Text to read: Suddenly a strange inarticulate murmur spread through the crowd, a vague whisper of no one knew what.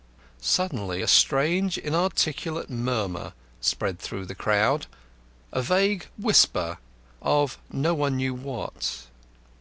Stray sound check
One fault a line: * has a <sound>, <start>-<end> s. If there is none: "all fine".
all fine